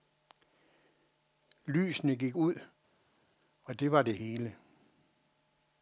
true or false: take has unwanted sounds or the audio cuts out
false